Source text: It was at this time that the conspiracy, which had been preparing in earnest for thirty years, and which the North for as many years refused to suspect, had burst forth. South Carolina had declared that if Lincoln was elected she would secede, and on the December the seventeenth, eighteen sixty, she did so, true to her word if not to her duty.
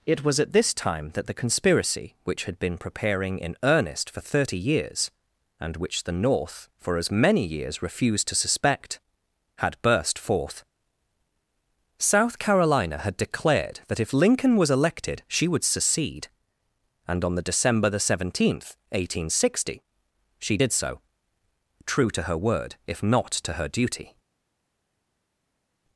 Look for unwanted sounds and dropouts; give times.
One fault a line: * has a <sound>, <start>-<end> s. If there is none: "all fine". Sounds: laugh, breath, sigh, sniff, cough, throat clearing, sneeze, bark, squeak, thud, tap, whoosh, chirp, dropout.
all fine